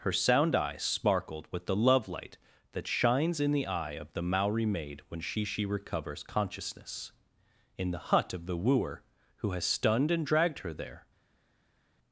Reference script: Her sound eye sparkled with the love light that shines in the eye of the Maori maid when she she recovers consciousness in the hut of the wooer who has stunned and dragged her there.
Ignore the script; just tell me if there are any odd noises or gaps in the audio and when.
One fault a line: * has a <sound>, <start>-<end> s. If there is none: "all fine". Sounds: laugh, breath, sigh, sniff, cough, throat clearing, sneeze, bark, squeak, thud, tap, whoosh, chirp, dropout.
all fine